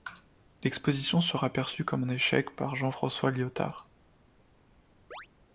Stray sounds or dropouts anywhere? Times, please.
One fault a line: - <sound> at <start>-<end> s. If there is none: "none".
- chirp at 5.1-5.3 s